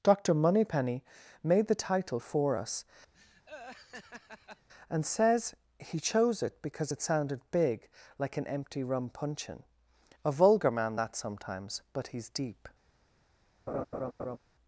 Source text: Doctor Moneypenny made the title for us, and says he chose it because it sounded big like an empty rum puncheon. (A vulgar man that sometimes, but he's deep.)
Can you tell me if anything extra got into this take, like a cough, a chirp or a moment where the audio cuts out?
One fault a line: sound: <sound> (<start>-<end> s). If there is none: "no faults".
sound: laugh (3.1-4.7 s)
sound: laugh (13.7-14.4 s)